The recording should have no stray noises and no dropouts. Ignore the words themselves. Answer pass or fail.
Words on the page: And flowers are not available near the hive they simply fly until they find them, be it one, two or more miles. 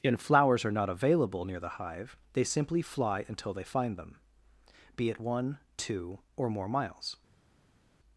pass